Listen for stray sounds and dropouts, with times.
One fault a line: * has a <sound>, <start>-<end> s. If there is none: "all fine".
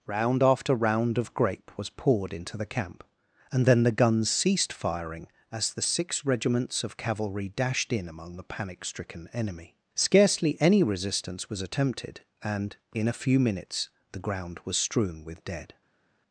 all fine